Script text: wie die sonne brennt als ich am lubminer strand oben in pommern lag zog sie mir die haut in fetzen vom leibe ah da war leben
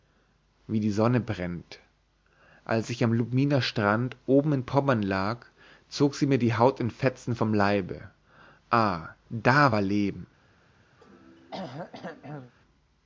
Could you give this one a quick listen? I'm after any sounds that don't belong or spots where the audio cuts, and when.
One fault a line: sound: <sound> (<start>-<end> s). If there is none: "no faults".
sound: throat clearing (11.0-12.5 s)